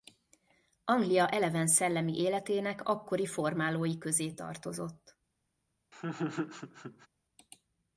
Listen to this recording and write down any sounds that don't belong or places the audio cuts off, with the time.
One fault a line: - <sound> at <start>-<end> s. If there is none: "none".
- laugh at 5.9-7.1 s